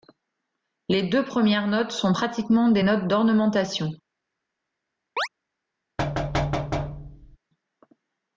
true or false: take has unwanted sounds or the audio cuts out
true